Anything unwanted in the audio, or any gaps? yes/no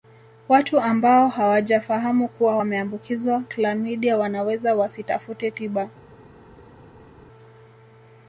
no